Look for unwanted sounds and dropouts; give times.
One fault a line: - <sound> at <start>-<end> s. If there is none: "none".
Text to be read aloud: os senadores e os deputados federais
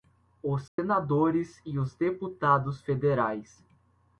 - dropout at 0.7-0.8 s